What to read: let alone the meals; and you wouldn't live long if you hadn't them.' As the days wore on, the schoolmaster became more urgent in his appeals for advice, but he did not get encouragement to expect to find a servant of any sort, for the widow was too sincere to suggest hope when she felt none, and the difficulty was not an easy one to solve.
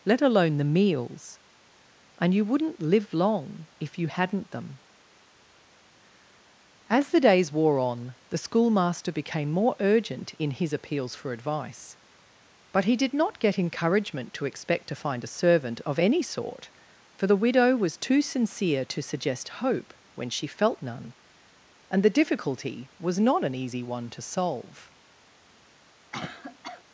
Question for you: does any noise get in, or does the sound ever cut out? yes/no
yes